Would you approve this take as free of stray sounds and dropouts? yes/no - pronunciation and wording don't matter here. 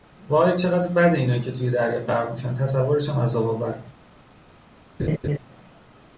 no